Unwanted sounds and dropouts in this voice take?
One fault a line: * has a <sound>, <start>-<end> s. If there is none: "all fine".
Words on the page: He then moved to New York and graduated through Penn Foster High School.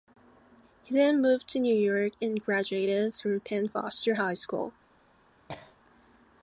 * has a cough, 5.5-5.8 s